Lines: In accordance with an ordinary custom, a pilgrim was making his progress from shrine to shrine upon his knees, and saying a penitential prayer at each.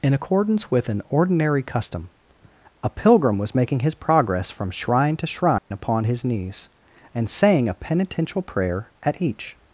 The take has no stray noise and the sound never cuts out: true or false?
false